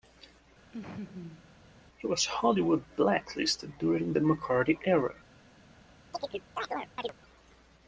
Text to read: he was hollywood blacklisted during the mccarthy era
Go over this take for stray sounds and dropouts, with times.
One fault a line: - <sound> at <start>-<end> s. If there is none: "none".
- laugh at 0.7-1.5 s
- chirp at 6.1-7.1 s